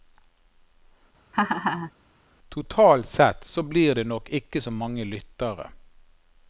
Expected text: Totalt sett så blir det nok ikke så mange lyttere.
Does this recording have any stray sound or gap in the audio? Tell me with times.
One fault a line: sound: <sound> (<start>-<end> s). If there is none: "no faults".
sound: laugh (1.3-1.9 s)